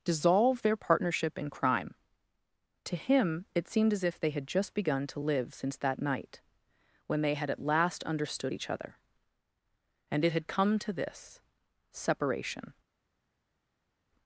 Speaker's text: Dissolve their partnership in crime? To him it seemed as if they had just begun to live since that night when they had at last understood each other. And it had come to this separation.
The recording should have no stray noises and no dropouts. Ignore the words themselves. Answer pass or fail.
pass